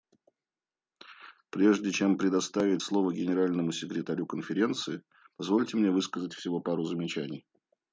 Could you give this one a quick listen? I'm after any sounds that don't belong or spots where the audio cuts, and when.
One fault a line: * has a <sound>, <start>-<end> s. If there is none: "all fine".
all fine